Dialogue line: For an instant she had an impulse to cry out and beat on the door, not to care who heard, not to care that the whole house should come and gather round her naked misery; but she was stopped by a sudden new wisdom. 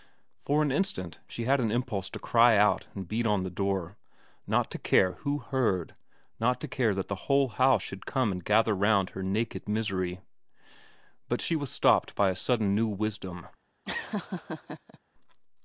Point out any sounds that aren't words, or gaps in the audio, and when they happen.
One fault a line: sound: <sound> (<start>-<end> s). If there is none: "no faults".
sound: laugh (13.9-15.0 s)